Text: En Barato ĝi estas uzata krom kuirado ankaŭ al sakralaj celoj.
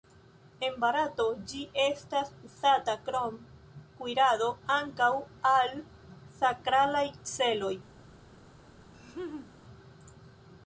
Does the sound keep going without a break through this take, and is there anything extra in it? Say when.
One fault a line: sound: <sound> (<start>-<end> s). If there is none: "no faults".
sound: laugh (8.9-9.5 s)